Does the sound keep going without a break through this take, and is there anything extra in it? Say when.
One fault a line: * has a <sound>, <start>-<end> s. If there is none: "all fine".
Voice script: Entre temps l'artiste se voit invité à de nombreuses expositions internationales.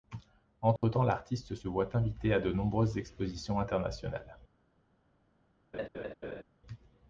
* has a dropout, 0.8-0.8 s
* has a laugh, 5.7-6.4 s